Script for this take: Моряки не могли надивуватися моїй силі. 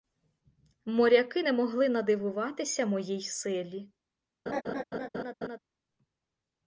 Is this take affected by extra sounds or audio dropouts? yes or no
yes